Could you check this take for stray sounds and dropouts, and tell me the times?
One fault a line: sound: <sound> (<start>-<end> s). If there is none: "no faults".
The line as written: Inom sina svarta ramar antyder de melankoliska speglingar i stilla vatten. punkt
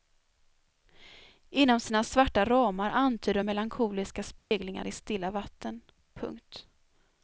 sound: dropout (4.4-4.5 s)